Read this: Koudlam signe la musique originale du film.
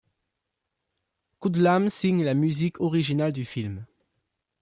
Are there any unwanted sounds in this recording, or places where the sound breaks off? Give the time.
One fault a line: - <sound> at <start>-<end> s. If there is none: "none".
none